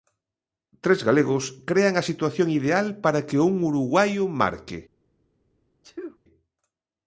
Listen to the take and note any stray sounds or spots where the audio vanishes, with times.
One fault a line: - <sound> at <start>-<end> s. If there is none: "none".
- sneeze at 5.8-6.2 s